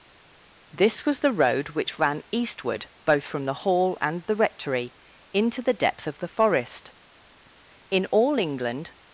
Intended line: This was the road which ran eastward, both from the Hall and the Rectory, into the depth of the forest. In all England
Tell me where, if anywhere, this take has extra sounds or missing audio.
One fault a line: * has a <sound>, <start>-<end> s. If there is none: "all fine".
all fine